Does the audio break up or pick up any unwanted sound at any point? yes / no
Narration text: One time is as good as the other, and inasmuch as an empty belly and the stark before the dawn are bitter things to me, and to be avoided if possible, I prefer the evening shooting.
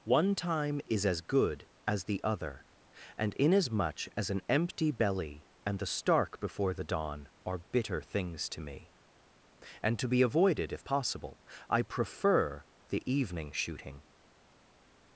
no